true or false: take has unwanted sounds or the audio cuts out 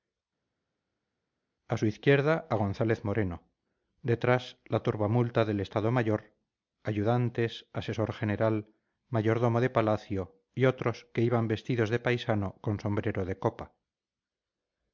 false